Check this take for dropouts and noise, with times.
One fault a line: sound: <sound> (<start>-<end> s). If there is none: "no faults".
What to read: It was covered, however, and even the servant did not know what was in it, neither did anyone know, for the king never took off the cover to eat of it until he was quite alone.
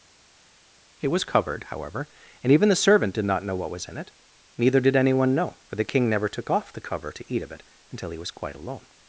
no faults